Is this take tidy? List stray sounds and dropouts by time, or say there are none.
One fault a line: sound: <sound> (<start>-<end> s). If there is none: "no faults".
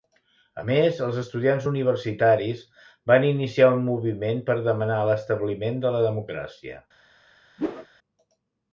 sound: whoosh (7.6-7.9 s)